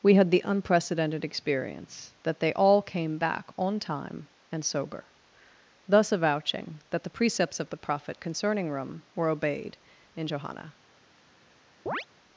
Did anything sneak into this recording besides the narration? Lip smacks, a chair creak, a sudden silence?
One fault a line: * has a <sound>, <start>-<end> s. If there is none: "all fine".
* has a chirp, 11.9-12.1 s